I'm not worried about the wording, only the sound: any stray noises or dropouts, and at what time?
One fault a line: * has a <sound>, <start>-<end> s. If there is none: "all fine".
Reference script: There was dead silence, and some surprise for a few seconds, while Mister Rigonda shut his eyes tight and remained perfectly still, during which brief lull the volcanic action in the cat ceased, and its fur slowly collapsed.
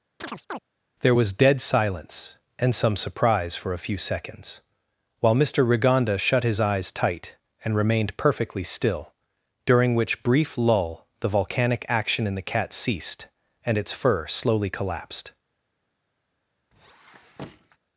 * has a chirp, 0.2-0.6 s
* has a squeak, 16.7-17.8 s